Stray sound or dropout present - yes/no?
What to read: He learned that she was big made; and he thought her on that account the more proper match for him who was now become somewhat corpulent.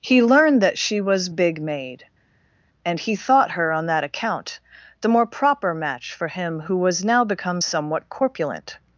no